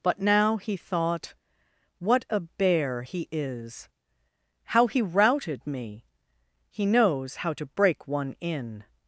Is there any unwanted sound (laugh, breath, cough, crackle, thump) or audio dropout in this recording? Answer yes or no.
no